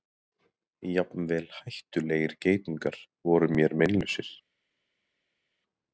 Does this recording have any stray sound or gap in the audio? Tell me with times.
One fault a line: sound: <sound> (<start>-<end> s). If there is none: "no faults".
no faults